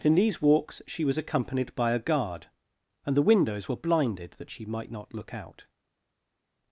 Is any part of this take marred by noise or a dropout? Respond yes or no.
no